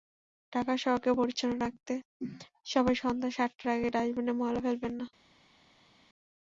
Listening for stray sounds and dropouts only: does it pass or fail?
pass